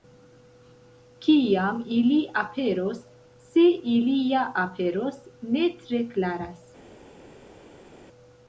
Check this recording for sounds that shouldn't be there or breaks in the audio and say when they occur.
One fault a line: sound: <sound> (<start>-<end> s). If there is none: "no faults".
no faults